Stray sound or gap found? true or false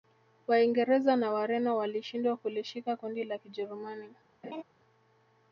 true